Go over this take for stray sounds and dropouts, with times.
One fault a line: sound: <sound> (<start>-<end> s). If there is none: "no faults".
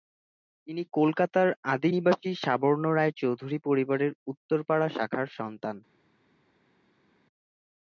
no faults